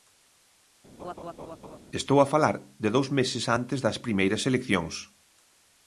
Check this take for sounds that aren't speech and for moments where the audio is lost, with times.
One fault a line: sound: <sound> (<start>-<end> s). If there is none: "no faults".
sound: laugh (1.0-1.8 s)